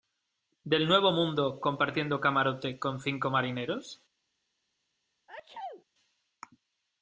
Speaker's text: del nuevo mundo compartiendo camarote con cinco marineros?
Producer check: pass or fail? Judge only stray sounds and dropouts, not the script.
fail